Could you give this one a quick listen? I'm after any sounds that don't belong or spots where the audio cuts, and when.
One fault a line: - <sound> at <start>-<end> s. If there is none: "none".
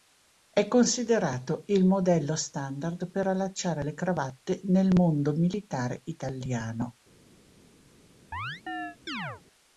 - chirp at 8.3-9.4 s